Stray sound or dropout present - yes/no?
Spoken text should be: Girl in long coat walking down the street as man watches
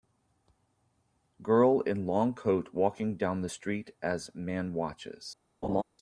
yes